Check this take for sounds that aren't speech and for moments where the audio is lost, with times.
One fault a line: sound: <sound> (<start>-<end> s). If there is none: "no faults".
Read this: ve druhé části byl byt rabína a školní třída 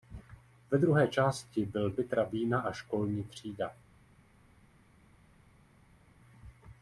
no faults